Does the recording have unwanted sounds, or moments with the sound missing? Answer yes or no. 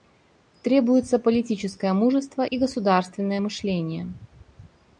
no